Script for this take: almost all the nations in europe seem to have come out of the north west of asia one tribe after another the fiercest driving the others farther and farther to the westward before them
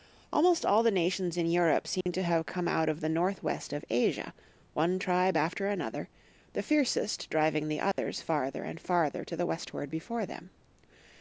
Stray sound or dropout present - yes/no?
yes